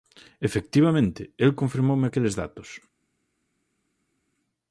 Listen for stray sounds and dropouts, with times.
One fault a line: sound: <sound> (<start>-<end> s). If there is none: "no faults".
no faults